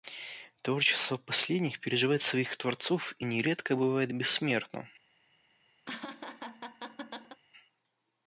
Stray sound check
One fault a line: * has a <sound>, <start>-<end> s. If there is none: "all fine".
* has a laugh, 5.9-7.4 s